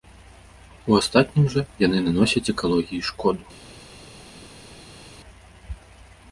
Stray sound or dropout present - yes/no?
no